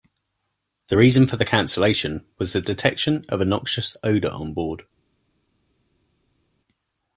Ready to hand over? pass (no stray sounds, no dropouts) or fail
pass